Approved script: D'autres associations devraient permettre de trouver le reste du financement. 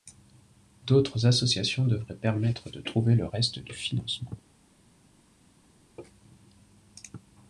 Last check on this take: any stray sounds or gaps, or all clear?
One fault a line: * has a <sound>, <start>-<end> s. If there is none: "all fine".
all fine